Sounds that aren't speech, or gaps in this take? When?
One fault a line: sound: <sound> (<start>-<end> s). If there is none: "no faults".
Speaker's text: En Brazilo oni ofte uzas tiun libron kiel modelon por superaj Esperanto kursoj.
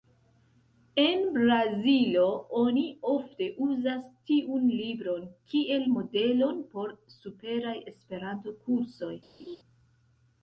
sound: laugh (9.4-9.6 s)